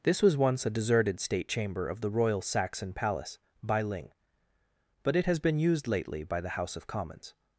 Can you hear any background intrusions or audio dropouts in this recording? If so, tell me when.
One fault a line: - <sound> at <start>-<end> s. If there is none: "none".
none